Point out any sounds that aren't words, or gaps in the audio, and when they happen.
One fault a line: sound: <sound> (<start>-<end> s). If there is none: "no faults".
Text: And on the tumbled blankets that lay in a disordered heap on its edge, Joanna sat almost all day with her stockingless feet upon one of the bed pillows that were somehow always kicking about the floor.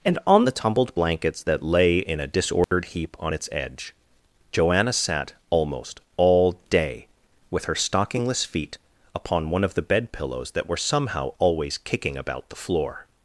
sound: dropout (2.6-2.7 s)